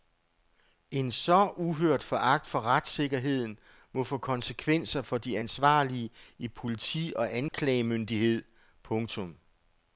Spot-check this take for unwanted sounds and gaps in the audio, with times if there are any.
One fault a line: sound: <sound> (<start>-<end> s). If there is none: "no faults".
sound: dropout (7.5-7.5 s)